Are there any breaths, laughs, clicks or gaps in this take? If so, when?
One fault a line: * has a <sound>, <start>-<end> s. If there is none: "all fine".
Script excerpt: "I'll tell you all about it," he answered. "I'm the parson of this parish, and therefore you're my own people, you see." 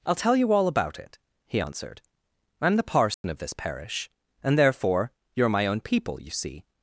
* has a dropout, 3.1-3.2 s